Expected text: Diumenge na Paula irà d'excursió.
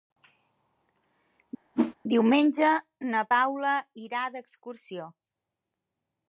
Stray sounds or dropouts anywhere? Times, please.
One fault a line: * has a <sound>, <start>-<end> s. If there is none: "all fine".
* has a whoosh, 1.7-1.9 s